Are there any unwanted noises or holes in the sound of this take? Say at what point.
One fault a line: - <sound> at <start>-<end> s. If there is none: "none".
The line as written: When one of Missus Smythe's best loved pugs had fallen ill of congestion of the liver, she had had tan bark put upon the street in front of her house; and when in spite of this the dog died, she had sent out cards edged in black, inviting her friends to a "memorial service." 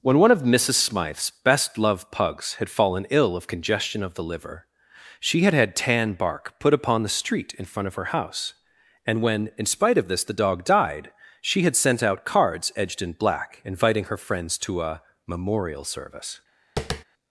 - tap at 16.8-17.0 s